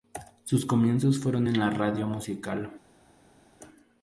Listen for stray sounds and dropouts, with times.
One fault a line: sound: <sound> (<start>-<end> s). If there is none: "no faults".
no faults